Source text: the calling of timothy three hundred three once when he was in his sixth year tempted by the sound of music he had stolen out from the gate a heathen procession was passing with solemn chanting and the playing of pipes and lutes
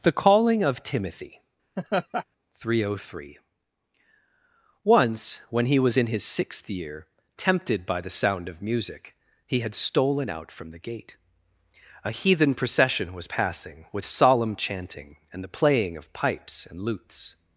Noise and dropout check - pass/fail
fail